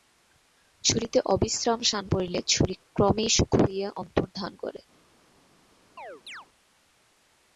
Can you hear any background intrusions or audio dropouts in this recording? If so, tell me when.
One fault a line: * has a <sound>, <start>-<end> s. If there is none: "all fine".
* has a chirp, 6.0-6.5 s